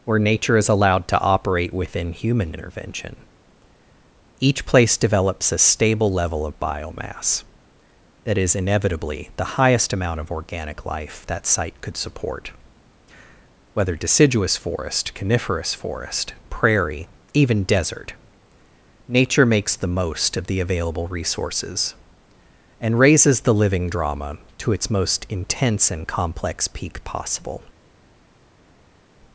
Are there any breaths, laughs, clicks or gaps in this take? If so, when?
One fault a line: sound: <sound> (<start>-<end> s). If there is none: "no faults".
no faults